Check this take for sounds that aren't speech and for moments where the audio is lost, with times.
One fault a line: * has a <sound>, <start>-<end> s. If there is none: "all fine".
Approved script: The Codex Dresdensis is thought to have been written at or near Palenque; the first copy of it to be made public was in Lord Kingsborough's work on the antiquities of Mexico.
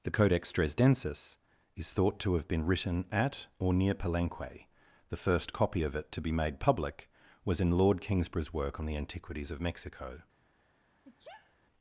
* has a sneeze, 11.0-11.6 s